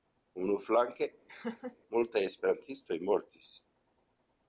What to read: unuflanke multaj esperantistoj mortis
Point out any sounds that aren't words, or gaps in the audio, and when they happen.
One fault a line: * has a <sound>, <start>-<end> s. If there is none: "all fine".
* has a laugh, 1.3-1.8 s